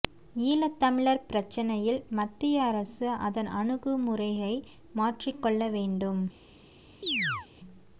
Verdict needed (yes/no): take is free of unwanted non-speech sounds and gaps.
no